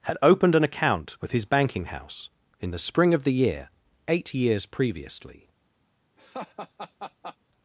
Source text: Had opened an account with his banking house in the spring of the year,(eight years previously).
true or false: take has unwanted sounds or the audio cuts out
true